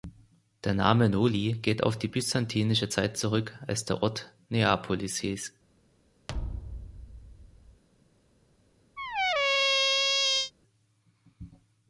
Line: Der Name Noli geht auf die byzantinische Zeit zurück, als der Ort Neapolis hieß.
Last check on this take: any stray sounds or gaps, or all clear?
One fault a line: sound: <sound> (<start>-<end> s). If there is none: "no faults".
sound: thud (6.3-7.8 s)
sound: squeak (9.0-10.5 s)